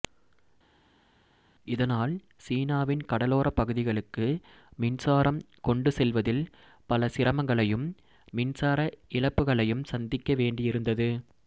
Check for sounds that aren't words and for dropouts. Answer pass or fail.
pass